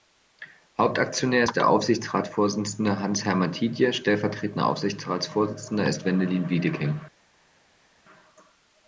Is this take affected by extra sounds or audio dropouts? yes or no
no